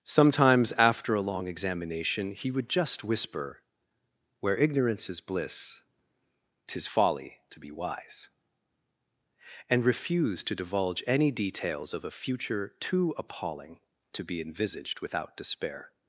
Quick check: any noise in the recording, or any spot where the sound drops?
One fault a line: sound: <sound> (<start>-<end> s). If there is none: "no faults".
no faults